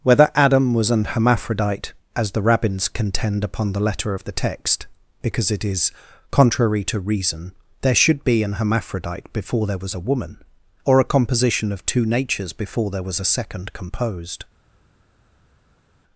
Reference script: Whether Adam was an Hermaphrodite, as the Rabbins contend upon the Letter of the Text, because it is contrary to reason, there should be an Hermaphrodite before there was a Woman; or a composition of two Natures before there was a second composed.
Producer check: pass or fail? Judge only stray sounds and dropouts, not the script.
pass